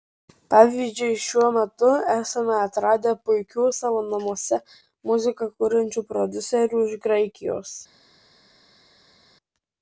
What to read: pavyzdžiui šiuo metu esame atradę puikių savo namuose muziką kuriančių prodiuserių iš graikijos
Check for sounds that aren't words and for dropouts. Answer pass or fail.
pass